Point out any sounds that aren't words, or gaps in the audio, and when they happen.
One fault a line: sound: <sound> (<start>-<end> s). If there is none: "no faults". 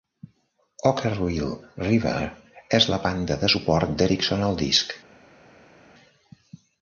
no faults